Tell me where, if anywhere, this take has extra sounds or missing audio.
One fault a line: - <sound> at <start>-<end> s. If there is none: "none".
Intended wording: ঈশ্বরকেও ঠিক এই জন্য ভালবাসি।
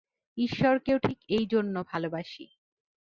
none